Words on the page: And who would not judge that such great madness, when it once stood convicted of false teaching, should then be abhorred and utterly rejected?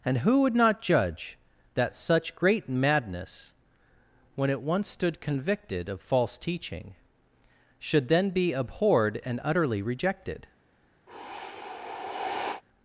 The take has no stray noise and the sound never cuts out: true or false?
false